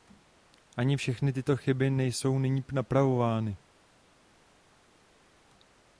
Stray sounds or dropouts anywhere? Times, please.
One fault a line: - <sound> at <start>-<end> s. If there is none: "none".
none